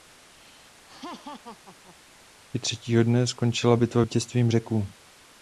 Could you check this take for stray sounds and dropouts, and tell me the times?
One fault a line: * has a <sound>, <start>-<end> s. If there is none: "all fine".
* has a laugh, 0.9-2.0 s